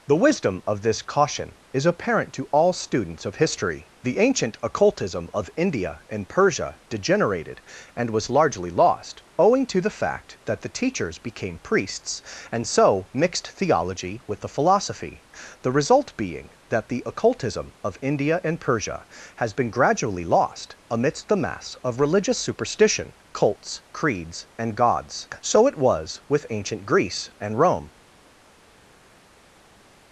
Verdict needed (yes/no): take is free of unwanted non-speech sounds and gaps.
yes